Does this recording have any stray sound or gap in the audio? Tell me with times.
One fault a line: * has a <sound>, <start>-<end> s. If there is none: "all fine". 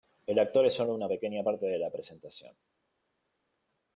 all fine